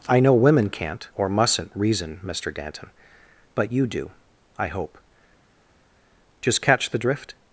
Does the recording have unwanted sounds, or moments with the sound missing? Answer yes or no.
no